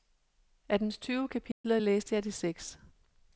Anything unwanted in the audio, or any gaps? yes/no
yes